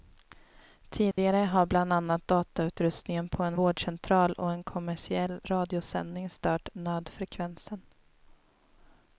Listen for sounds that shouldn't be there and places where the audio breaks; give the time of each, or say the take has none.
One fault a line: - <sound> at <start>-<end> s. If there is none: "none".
- dropout at 1.1-1.2 s